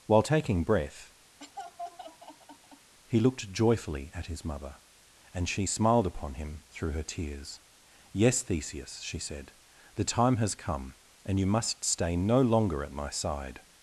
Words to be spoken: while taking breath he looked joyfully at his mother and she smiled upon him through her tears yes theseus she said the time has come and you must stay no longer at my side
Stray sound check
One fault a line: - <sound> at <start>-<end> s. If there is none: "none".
- laugh at 1.4-2.9 s